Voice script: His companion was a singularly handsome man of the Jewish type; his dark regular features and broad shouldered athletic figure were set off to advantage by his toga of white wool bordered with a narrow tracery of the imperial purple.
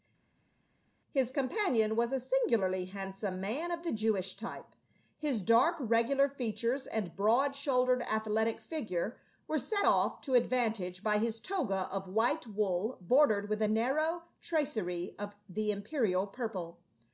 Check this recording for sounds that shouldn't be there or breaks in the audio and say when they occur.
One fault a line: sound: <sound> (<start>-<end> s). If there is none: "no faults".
no faults